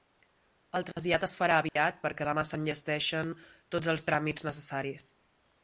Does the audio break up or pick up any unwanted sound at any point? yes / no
yes